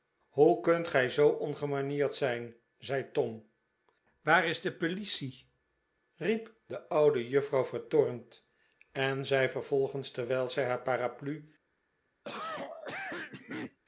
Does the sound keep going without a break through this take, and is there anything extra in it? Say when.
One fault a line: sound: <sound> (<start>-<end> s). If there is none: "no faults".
sound: cough (12.2-13.8 s)